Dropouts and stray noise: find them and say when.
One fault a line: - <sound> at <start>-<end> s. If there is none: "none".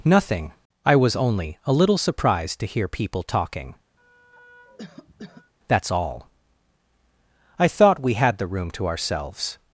- cough at 4.0-5.5 s